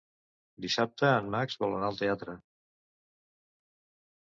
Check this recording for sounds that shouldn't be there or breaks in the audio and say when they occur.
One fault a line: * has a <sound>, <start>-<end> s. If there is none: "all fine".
all fine